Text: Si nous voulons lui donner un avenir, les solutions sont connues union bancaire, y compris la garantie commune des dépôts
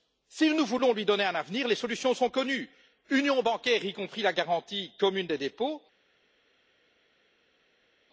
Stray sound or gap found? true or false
false